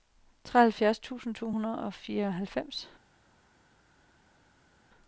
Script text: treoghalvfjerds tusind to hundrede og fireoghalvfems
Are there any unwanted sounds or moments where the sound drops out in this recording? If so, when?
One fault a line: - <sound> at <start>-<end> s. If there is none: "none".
none